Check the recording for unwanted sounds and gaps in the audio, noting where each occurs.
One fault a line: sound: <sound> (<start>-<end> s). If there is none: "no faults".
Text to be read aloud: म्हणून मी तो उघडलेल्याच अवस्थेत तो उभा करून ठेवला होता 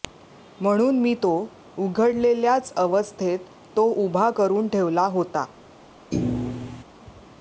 sound: thud (6.1-6.8 s)